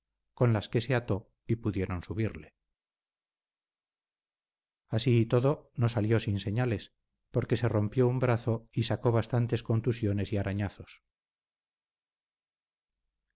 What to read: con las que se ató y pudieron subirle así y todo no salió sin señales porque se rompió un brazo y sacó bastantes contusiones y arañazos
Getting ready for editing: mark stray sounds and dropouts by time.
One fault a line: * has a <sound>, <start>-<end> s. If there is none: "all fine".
all fine